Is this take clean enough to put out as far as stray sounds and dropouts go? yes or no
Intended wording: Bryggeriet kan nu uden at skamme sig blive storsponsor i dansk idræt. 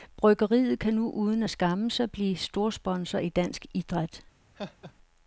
no